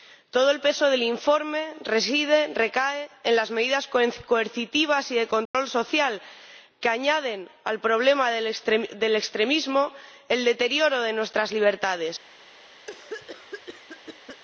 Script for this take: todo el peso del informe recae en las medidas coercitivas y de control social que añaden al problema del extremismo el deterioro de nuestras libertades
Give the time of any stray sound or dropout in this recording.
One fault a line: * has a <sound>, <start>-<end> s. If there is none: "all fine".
* has a dropout, 5.5-5.5 s
* has a cough, 12.9-14.4 s